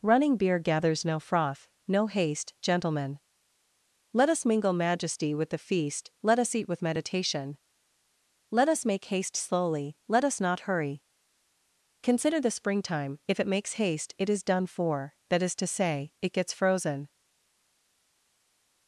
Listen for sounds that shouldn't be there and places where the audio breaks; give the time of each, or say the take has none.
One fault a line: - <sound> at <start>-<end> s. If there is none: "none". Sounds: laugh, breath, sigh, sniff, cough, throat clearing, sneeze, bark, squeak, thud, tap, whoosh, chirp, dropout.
none